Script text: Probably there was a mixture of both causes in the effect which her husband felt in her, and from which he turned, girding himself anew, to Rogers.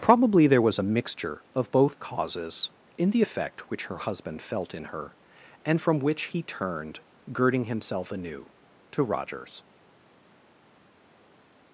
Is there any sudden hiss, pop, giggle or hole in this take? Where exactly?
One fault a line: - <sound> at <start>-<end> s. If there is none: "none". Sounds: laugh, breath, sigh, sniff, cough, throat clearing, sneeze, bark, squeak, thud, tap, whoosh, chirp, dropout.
none